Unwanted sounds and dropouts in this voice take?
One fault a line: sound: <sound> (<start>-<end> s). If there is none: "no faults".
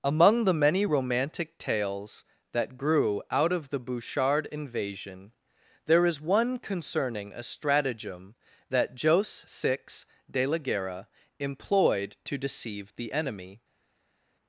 no faults